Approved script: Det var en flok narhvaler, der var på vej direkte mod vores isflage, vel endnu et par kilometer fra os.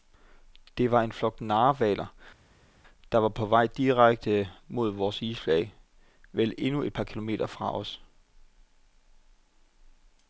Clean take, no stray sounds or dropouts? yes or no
yes